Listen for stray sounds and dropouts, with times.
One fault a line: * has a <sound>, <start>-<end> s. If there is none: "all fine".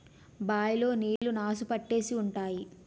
* has a dropout, 1.2-1.2 s